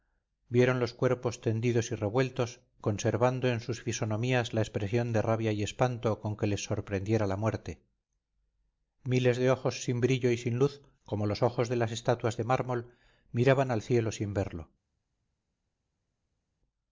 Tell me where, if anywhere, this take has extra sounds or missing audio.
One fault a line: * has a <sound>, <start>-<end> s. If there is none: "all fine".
all fine